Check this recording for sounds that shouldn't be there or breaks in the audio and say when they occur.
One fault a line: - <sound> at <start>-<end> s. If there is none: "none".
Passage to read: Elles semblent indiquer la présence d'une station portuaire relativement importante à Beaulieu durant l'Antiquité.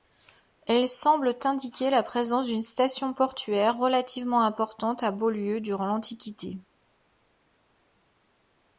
none